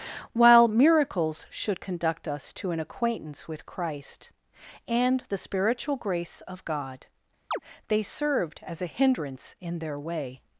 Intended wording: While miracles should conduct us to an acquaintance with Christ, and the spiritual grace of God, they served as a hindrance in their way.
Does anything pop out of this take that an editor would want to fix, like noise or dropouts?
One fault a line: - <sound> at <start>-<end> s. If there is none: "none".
- chirp at 7.5-7.6 s